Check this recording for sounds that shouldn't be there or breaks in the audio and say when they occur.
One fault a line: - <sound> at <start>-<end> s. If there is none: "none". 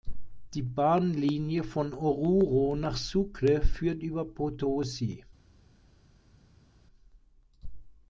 none